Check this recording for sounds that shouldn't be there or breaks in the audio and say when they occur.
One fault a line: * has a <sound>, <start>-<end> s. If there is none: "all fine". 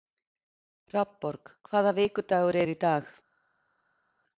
all fine